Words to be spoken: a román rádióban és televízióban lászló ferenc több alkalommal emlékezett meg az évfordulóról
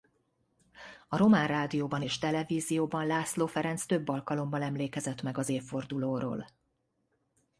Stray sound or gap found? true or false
false